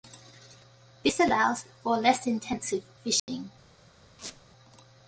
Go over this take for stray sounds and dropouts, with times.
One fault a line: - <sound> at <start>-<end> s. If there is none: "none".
- dropout at 3.2-3.3 s
- squeak at 4.2-4.4 s